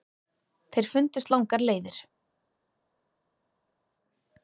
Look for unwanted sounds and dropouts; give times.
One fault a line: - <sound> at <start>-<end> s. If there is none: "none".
none